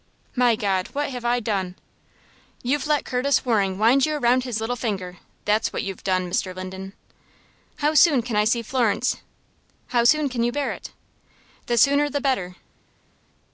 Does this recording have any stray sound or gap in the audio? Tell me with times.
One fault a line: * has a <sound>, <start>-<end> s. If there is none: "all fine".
all fine